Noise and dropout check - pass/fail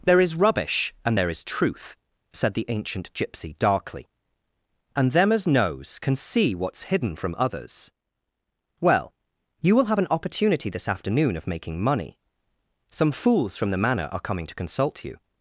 pass